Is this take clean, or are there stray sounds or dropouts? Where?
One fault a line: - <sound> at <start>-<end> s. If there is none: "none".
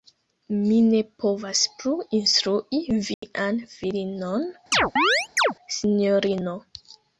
- dropout at 3.1-3.2 s
- chirp at 4.7-5.5 s